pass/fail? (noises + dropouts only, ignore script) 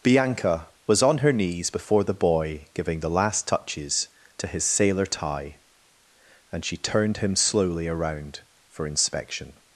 pass